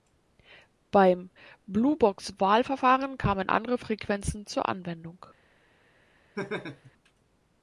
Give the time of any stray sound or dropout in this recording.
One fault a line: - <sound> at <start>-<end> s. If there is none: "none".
- laugh at 6.4-6.9 s